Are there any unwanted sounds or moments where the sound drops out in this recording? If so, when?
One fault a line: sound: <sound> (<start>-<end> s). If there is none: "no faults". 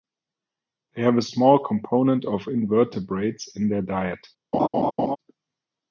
sound: laugh (4.5-5.2 s)